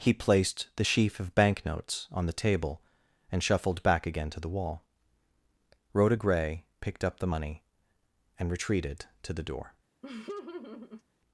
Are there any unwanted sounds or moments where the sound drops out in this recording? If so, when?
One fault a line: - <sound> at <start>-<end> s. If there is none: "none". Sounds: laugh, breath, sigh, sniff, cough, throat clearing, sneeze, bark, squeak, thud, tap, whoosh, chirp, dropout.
- laugh at 10.0-11.0 s